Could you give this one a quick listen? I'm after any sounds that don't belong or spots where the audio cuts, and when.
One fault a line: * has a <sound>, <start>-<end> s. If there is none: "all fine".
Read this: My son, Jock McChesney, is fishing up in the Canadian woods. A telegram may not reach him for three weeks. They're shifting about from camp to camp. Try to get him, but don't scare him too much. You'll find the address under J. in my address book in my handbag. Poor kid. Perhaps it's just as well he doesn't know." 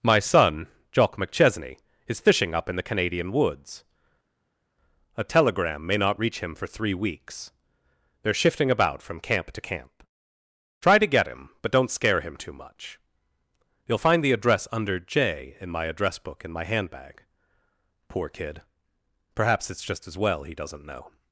all fine